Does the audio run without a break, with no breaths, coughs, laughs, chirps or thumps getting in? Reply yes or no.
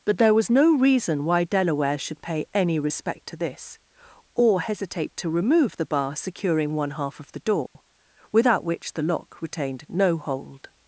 no